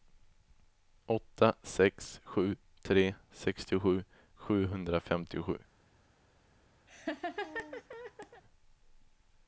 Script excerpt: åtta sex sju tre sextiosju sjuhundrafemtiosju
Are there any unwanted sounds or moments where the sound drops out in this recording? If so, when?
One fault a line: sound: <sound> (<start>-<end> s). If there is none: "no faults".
sound: laugh (6.9-8.4 s)